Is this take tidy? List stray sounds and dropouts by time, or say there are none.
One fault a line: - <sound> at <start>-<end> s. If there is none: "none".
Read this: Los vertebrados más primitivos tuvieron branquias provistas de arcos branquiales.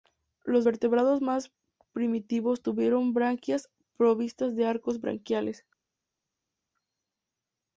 none